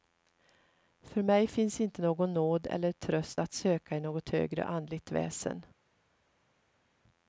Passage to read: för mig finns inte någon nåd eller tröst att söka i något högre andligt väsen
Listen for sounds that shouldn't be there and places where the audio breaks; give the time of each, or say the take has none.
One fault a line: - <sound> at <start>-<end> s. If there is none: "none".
none